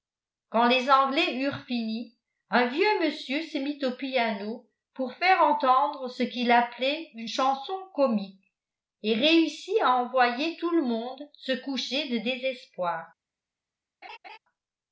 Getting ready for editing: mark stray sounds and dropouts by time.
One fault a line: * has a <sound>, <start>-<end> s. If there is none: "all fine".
* has a laugh, 14.0-14.4 s